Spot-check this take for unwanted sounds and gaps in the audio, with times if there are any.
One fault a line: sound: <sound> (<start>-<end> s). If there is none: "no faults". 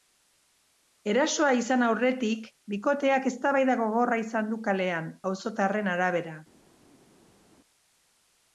no faults